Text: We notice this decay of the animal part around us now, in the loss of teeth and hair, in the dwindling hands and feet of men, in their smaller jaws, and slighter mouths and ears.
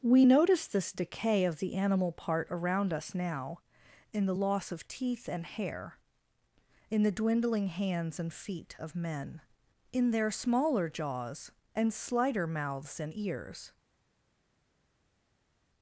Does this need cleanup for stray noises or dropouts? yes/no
no